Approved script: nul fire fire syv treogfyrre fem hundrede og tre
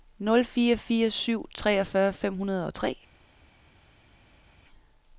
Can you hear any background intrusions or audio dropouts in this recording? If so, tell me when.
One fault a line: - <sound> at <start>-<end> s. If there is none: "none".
none